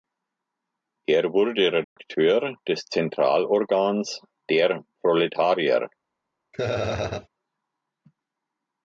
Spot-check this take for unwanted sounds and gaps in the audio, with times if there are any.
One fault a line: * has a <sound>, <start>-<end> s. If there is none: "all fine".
* has a dropout, 1.8-2.0 s
* has a laugh, 6.5-7.3 s